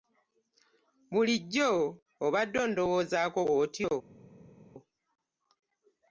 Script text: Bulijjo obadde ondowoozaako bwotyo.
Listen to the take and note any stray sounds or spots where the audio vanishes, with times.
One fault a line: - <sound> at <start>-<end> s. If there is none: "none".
none